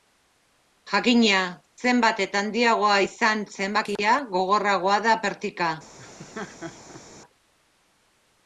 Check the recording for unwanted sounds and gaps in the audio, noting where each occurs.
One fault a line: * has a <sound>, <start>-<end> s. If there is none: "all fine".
* has a laugh, 6.0-7.0 s